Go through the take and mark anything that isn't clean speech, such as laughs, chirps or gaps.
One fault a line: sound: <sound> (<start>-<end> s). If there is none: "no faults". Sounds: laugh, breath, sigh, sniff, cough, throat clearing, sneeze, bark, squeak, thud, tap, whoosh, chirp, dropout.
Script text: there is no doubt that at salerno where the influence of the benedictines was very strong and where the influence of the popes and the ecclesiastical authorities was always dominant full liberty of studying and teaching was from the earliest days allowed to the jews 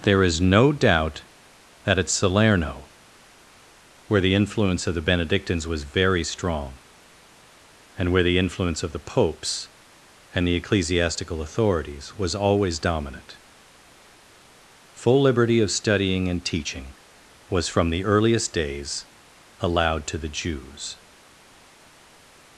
no faults